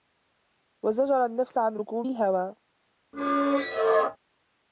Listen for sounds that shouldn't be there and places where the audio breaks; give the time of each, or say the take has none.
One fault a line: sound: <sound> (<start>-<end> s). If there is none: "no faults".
sound: squeak (3.1-4.2 s)